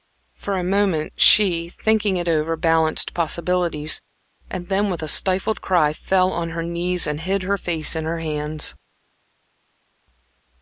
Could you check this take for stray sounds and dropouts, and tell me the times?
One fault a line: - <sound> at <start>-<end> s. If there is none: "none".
none